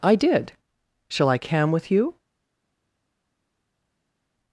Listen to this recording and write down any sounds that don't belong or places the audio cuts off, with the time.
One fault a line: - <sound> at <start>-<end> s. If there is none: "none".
none